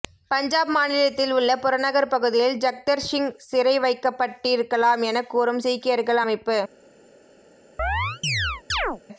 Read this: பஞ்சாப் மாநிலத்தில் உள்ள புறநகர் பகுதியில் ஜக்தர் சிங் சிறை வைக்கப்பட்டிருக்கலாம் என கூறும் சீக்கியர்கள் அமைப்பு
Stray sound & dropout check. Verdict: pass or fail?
fail